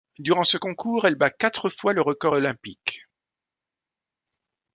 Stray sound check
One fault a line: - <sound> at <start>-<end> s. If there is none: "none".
none